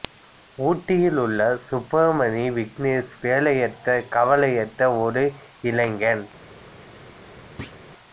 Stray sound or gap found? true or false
true